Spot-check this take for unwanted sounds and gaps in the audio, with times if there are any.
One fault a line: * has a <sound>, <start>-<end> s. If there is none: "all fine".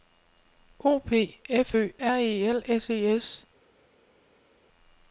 all fine